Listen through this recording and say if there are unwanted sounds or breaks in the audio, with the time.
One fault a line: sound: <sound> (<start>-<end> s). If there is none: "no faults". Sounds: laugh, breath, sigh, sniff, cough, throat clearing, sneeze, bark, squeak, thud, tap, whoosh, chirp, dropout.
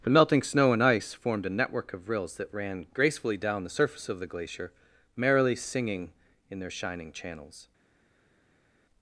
no faults